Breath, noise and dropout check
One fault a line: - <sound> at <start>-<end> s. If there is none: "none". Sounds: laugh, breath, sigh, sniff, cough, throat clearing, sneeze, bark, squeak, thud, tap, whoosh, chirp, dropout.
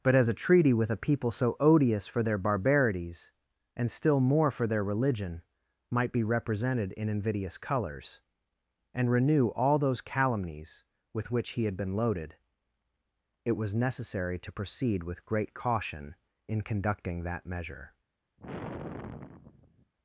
- sigh at 18.4-19.9 s